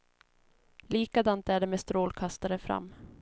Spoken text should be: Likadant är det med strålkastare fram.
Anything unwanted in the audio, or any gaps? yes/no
no